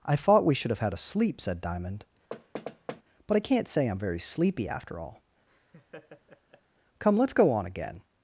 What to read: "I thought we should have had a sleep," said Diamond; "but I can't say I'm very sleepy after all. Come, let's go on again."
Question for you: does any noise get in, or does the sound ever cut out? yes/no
yes